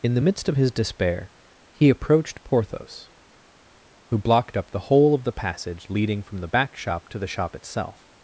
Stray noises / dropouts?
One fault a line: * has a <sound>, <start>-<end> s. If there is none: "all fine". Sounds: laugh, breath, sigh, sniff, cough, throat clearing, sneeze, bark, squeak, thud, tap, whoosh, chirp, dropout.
all fine